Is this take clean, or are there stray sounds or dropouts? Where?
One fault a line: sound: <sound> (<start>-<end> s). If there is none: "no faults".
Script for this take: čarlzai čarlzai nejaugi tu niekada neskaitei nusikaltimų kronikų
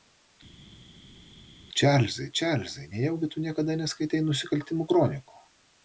no faults